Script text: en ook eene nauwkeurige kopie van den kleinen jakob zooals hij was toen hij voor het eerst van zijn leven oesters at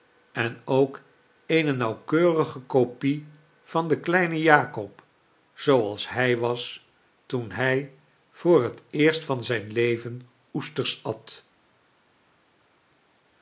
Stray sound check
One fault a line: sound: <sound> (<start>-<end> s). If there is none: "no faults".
no faults